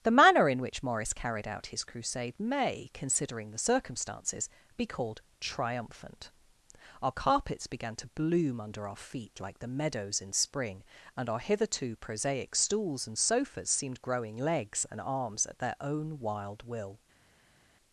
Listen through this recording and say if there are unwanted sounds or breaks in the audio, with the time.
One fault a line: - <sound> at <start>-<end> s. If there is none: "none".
none